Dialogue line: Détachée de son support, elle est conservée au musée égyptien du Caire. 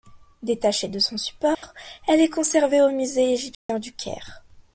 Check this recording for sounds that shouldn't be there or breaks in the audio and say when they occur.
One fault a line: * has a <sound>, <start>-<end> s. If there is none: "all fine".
* has a dropout, 1.5-1.6 s
* has a dropout, 3.5-3.7 s